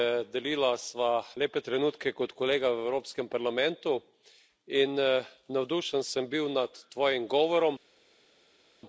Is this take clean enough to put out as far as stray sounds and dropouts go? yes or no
yes